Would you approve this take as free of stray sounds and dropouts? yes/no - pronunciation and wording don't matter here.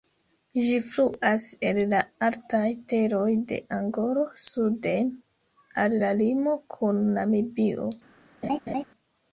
no